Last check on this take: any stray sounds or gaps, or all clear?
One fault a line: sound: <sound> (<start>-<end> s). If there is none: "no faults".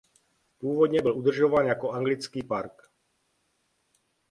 no faults